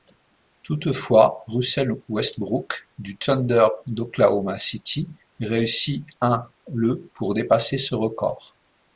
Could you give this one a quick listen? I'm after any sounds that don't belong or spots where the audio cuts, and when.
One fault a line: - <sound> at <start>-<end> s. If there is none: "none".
none